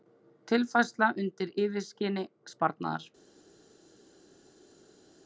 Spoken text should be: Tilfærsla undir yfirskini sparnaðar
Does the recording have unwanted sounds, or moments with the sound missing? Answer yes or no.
no